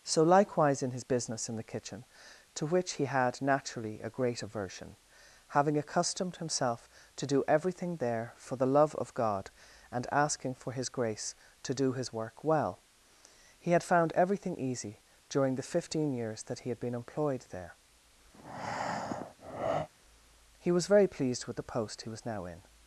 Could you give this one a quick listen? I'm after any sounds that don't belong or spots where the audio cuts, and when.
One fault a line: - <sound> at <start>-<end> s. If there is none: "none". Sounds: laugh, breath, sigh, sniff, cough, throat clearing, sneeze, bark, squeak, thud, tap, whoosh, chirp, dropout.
- breath at 18.3-19.9 s